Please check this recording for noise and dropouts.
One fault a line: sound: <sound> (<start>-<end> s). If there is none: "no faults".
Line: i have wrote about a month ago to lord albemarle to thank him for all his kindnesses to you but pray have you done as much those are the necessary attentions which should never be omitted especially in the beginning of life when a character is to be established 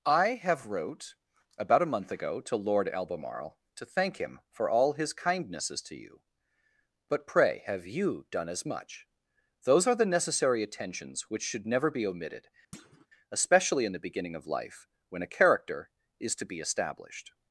sound: thud (12.7-13.1 s)